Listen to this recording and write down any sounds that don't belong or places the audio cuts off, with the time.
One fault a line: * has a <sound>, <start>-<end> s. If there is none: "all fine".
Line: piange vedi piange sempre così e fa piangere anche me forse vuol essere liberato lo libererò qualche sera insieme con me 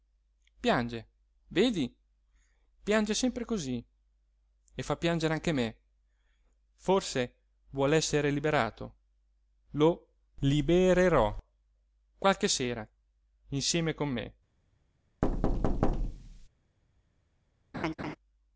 * has a thud, 15.2-16.5 s
* has a laugh, 17.7-18.2 s